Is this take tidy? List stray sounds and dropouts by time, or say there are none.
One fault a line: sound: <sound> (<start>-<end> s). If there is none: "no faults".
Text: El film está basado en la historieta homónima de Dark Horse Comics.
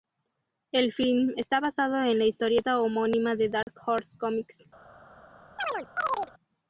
sound: dropout (3.6-3.7 s)
sound: chirp (5.6-6.3 s)